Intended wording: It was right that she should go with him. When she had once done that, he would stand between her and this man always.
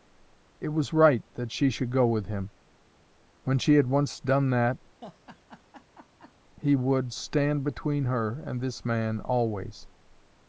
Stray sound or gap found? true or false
true